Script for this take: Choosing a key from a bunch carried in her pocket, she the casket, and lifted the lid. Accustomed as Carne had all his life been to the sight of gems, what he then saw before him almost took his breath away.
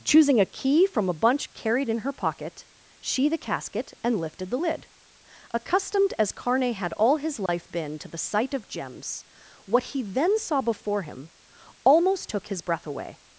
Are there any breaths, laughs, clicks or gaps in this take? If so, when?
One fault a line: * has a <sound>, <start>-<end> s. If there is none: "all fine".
* has a dropout, 7.5-7.5 s